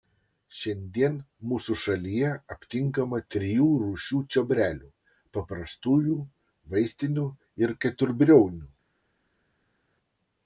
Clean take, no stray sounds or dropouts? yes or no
yes